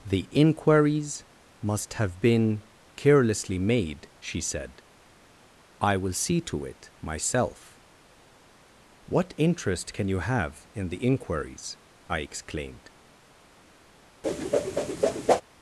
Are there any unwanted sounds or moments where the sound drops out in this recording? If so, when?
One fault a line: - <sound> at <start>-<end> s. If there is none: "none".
- whoosh at 14.2-15.4 s